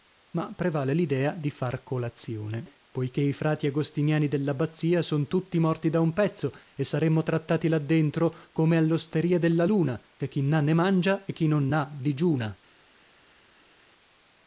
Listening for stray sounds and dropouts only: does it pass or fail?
pass